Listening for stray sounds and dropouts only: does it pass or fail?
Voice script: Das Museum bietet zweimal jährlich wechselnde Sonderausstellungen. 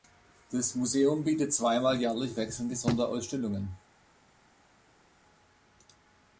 pass